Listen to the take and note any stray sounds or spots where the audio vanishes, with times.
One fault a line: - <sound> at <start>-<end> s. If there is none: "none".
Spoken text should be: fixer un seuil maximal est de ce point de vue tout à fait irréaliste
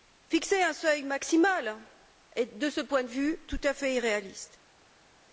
none